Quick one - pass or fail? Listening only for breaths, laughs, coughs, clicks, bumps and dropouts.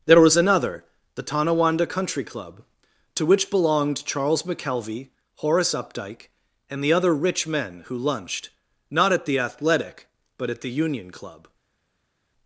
pass